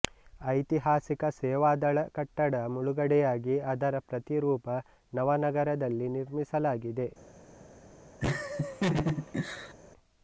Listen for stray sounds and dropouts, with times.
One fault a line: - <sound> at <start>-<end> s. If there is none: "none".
- laugh at 8.2-9.7 s